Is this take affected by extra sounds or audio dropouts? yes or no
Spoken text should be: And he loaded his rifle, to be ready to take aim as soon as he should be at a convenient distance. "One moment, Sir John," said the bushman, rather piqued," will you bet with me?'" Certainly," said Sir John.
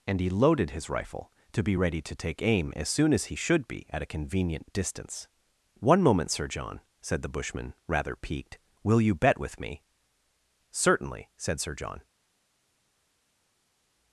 no